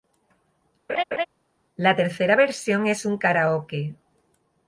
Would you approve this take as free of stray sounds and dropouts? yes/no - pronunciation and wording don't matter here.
no